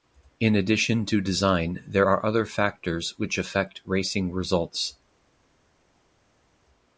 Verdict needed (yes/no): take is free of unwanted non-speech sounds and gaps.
yes